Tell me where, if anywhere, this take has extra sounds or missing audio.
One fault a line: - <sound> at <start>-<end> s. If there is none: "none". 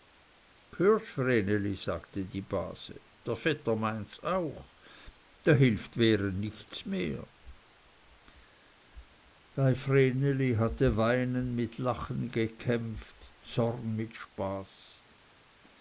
none